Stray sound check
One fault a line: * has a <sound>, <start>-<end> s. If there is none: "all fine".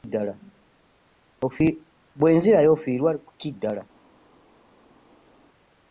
all fine